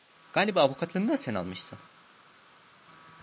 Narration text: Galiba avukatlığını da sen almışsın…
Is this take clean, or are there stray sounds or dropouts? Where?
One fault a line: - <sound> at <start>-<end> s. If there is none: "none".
none